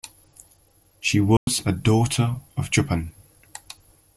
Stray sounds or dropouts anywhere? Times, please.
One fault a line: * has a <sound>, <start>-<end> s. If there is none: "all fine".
* has a dropout, 1.4-1.5 s